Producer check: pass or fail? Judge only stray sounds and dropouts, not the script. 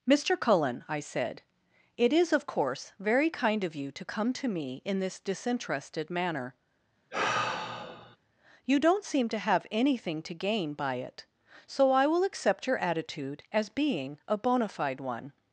fail